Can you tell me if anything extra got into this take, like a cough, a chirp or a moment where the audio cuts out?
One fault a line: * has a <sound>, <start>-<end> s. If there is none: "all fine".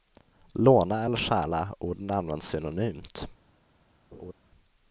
* has a laugh, 4.1-4.3 s